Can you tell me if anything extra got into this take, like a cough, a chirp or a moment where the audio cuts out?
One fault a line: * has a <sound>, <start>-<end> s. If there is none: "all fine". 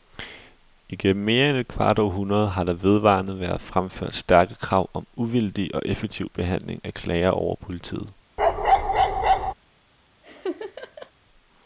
* has a bark, 8.4-9.5 s
* has a laugh, 10.2-11.1 s